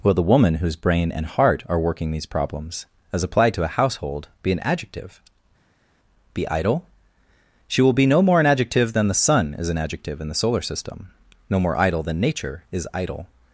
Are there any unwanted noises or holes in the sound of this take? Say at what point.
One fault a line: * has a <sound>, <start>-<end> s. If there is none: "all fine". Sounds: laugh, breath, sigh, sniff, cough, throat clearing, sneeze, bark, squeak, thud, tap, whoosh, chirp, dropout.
all fine